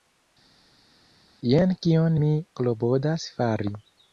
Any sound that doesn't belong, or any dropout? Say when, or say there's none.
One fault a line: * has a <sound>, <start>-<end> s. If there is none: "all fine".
all fine